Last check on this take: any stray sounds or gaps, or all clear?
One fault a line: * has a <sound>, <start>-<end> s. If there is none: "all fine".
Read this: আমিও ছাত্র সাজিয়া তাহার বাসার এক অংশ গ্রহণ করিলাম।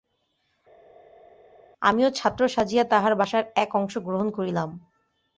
all fine